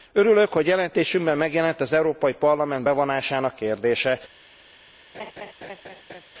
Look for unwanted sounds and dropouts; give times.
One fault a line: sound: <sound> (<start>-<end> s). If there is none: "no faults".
sound: laugh (5.1-6.3 s)